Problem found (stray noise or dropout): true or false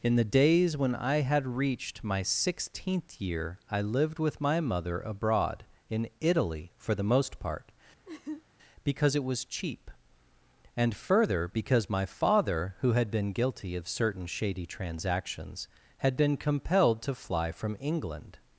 true